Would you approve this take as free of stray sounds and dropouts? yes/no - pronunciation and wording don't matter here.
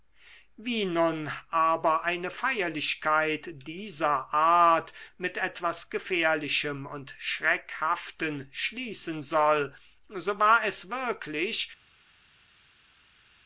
yes